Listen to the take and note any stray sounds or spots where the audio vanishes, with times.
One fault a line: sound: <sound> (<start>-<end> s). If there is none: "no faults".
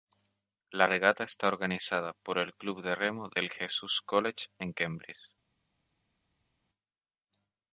no faults